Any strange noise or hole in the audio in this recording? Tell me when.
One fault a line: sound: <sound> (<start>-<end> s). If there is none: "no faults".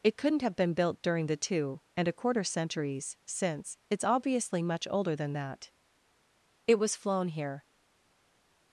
no faults